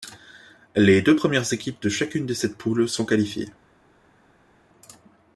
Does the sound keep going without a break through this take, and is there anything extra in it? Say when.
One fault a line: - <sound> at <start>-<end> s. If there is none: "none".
none